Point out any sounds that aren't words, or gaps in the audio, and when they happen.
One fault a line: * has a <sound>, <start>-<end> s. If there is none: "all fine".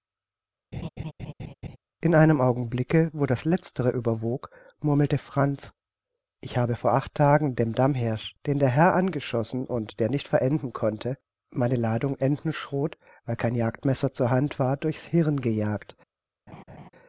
* has a laugh, 0.7-1.8 s
* has a laugh, 16.5-16.9 s